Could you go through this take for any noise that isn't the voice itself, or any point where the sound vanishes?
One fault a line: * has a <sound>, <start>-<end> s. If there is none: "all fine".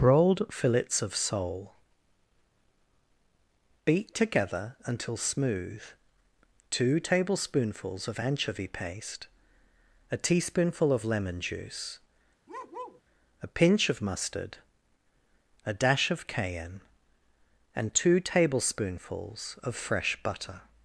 * has a bark, 12.5-13.0 s